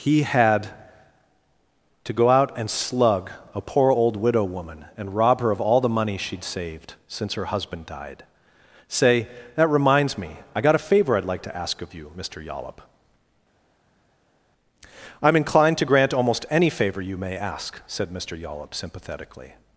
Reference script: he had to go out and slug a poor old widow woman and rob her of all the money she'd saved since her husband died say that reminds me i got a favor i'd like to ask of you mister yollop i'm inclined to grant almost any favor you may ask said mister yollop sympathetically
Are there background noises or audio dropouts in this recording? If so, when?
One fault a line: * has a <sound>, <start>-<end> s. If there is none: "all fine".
all fine